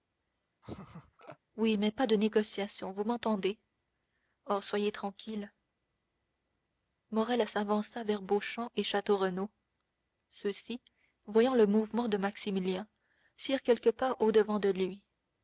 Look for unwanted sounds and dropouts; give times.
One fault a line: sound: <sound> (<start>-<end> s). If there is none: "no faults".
sound: laugh (0.6-1.4 s)